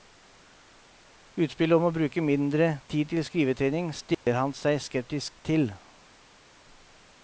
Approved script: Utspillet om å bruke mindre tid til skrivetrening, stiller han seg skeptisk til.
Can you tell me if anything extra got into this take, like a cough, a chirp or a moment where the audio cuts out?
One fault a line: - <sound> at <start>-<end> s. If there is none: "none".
- dropout at 4.1-4.3 s